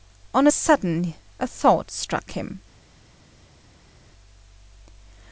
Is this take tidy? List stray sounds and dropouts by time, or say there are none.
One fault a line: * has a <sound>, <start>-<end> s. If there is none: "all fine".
all fine